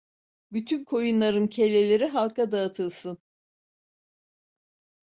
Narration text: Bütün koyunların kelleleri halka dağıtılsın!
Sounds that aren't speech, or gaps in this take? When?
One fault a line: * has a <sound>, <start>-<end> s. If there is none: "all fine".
all fine